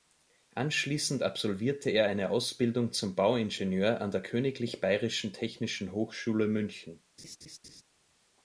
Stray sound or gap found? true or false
true